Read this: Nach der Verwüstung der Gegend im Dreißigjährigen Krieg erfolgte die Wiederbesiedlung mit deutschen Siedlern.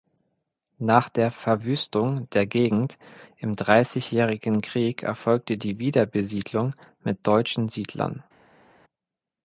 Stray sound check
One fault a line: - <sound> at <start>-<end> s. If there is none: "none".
none